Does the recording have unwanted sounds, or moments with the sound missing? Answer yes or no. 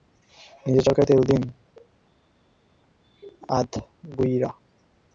no